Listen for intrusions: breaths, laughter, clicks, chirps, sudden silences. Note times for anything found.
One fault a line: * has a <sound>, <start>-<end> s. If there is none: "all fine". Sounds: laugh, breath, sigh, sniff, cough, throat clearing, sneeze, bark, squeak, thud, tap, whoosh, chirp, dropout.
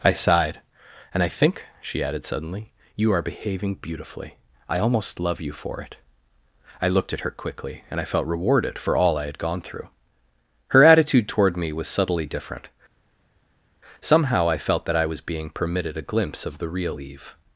all fine